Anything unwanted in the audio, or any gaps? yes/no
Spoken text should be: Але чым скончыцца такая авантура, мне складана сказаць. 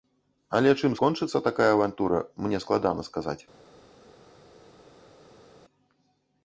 no